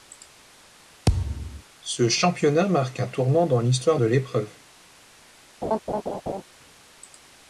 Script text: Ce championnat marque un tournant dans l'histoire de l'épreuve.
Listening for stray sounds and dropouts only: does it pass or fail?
fail